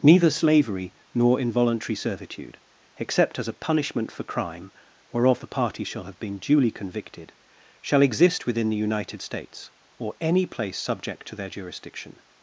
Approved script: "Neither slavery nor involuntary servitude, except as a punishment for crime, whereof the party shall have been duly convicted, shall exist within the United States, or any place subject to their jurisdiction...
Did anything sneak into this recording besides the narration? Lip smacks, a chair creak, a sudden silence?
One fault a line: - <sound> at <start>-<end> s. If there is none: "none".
none